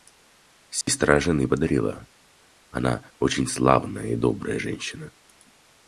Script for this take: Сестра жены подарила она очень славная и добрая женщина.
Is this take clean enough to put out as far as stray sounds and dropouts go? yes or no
no